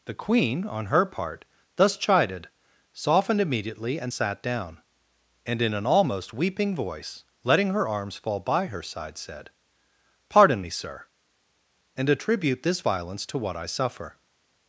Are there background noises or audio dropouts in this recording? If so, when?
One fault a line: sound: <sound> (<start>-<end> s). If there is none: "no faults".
no faults